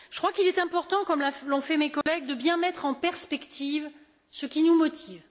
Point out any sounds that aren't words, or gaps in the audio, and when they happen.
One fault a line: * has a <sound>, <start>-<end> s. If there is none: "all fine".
* has a dropout, 2.0-2.1 s